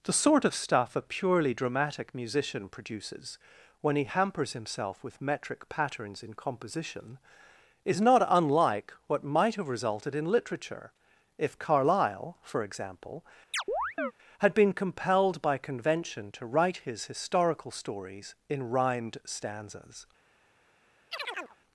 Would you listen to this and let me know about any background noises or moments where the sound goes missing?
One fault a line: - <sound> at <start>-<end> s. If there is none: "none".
- chirp at 13.5-14.1 s
- chirp at 21.1-21.6 s